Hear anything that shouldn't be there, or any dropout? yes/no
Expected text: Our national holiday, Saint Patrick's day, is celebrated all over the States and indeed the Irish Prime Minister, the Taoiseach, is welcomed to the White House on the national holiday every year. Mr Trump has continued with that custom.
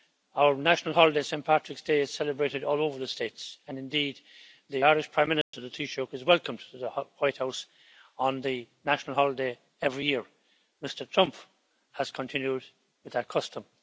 yes